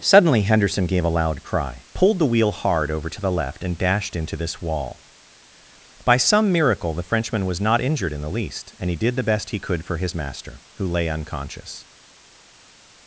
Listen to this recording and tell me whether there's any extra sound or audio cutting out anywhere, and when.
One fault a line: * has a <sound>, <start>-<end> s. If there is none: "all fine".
all fine